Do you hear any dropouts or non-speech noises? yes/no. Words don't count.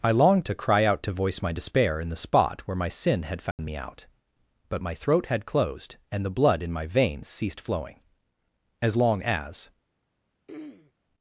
yes